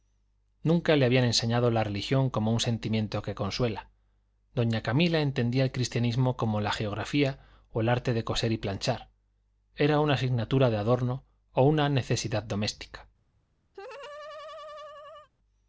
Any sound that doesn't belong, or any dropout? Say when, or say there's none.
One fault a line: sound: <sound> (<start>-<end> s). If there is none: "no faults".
sound: laugh (13.7-15.3 s)